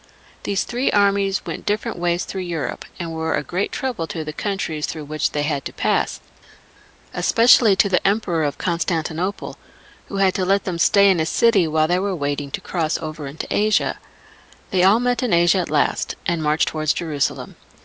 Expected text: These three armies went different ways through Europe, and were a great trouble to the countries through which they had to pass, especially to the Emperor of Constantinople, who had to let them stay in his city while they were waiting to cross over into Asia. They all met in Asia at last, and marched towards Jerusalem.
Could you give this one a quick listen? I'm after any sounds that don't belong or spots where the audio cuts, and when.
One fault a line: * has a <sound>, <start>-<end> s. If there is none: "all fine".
all fine